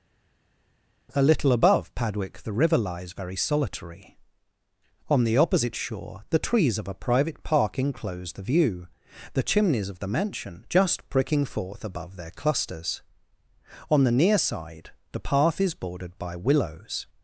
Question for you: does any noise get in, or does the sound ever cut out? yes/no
no